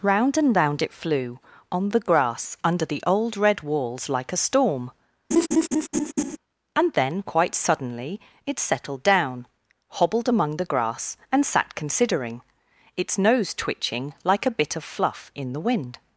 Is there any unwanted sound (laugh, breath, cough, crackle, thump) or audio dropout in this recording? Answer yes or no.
yes